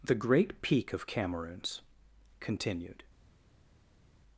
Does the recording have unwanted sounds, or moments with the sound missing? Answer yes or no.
no